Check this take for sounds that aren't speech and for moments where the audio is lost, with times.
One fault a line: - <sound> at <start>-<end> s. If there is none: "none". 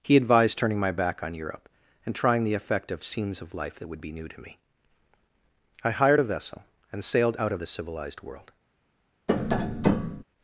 - tap at 9.3-10.2 s